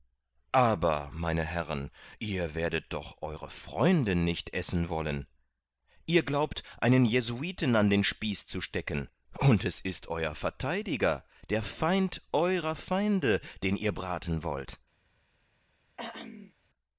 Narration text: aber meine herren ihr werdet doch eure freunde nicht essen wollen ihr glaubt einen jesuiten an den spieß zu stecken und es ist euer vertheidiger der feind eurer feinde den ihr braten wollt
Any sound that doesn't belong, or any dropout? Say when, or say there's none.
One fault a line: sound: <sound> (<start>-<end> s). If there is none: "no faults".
sound: throat clearing (16.0-16.5 s)